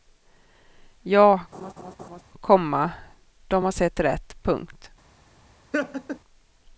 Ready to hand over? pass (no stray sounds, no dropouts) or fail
fail